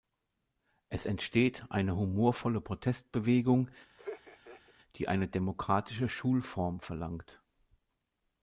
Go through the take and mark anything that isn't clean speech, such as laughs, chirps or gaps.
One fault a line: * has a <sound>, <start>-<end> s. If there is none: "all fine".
* has a laugh, 4.0-4.7 s